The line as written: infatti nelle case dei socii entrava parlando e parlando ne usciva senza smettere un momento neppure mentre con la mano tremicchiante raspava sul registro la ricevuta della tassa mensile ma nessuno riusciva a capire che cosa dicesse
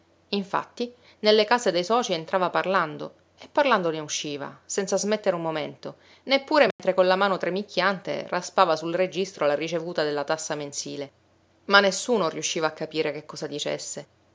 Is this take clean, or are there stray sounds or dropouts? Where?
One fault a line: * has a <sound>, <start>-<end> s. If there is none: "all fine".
* has a dropout, 6.7-6.8 s